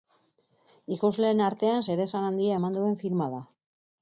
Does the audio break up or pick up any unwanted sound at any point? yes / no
no